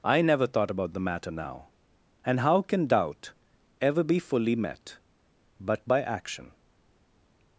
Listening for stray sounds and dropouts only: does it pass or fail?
pass